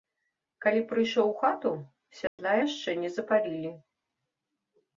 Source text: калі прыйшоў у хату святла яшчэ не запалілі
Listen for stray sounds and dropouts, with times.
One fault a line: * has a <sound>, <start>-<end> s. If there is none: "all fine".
* has a dropout, 2.3-2.4 s